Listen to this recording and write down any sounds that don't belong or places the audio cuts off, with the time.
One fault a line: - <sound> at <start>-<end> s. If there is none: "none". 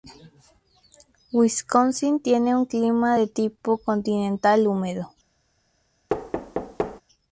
- thud at 6.1-7.0 s